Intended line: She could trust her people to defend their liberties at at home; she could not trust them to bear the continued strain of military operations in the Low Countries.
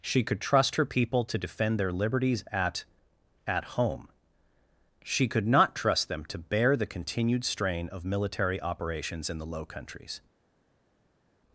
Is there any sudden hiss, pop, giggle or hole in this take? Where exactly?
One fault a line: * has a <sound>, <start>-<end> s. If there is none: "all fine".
all fine